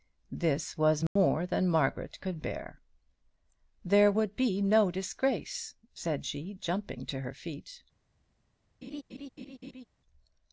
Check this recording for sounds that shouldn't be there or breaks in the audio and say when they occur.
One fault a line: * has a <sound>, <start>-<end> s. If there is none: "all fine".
* has a dropout, 1.1-1.2 s
* has a laugh, 8.8-9.8 s